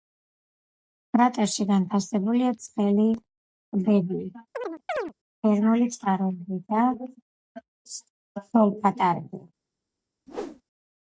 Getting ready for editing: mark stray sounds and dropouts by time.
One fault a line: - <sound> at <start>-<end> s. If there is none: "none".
- chirp at 4.5-5.1 s
- whoosh at 10.3-10.6 s